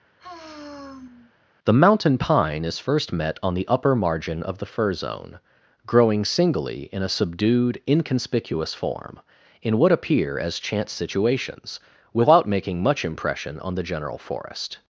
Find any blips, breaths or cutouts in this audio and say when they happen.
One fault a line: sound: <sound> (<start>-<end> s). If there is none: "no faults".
sound: sigh (0.2-1.3 s)